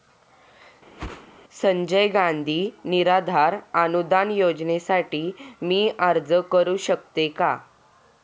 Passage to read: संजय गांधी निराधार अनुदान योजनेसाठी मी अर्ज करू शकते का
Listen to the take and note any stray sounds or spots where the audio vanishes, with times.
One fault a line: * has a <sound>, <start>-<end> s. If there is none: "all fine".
* has a whoosh, 1.0-1.3 s